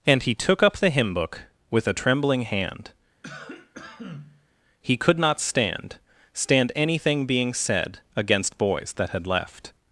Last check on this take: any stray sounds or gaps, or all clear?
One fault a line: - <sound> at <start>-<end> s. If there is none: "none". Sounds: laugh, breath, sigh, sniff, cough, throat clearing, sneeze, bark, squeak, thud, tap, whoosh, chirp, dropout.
- cough at 3.2-4.5 s